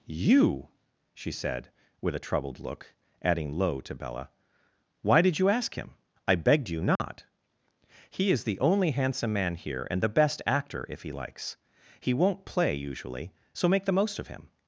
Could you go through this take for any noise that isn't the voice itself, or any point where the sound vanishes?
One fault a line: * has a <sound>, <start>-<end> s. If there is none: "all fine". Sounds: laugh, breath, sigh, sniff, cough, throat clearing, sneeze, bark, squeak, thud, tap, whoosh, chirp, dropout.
* has a dropout, 7.0-7.0 s